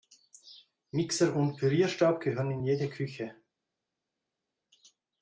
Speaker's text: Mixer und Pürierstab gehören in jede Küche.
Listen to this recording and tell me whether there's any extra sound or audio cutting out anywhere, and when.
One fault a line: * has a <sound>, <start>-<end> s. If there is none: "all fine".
all fine